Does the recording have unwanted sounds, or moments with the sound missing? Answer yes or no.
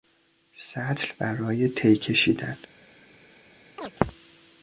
yes